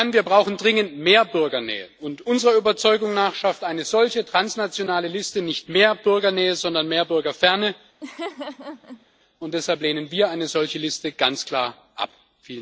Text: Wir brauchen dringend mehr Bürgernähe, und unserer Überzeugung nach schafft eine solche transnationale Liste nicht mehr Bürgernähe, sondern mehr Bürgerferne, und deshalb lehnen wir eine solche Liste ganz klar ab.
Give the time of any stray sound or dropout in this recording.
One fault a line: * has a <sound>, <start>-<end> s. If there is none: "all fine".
* has a laugh, 8.0-9.1 s